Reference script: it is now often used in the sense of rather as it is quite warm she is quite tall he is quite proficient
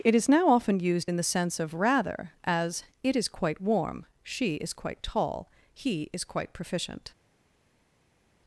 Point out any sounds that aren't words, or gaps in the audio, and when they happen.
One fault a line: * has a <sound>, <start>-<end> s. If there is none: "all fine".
all fine